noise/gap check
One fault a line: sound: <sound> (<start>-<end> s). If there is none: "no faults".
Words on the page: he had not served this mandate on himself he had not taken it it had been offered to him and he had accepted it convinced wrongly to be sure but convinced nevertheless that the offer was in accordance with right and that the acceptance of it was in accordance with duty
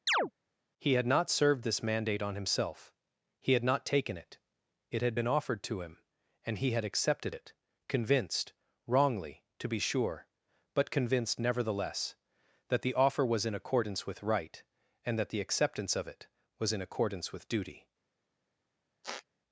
sound: chirp (0.1-0.3 s)
sound: squeak (19.0-19.2 s)